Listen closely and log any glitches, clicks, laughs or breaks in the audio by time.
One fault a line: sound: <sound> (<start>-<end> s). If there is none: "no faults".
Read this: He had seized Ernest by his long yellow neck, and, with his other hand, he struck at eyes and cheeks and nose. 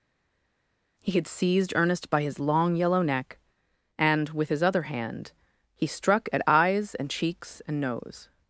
no faults